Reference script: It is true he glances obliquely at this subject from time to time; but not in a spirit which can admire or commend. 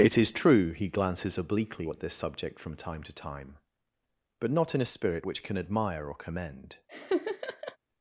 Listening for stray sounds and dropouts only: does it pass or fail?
fail